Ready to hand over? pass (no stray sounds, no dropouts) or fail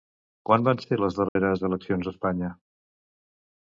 fail